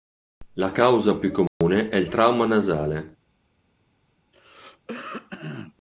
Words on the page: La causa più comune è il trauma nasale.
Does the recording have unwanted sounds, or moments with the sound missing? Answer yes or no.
yes